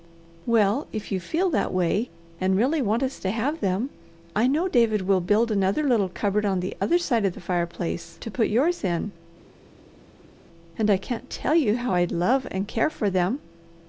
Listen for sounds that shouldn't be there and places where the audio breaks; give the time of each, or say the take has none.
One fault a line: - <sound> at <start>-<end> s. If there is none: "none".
none